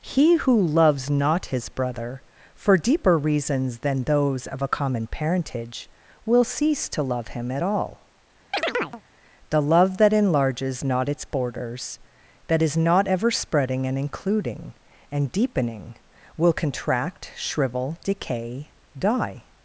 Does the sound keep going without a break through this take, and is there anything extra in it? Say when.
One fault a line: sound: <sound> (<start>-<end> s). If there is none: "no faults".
sound: chirp (8.5-9.0 s)